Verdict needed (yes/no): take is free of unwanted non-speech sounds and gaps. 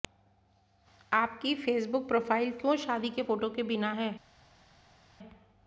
yes